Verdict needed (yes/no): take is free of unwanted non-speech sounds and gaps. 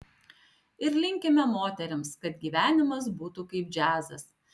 yes